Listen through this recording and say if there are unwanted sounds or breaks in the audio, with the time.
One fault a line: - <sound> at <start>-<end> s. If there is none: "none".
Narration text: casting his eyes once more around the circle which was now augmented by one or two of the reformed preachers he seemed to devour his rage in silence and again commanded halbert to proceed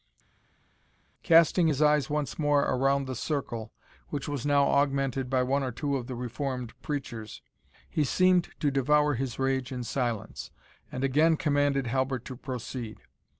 none